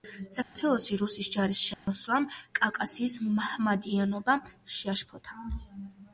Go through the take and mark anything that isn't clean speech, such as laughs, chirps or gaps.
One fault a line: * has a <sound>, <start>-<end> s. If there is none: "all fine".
* has a dropout, 0.4-0.6 s
* has a dropout, 1.7-1.9 s